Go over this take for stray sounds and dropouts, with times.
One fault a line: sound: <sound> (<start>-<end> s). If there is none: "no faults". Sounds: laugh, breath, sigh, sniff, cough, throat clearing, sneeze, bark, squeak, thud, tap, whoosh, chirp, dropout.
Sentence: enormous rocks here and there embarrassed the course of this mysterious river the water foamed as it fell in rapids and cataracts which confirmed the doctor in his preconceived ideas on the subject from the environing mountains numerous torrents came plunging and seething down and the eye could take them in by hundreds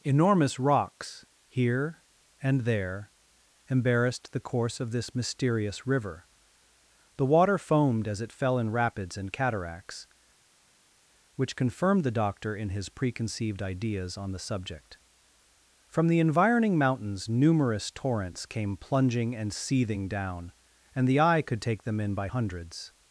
no faults